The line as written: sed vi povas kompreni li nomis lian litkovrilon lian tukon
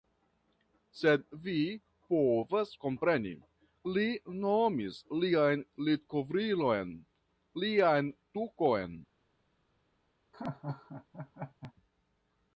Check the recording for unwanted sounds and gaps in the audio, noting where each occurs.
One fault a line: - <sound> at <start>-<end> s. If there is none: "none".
- laugh at 10.3-11.7 s